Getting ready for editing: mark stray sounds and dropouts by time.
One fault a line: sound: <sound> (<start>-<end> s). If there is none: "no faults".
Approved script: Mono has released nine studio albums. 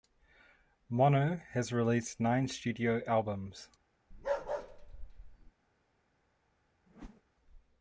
sound: bark (4.1-5.5 s)
sound: whoosh (6.9-7.2 s)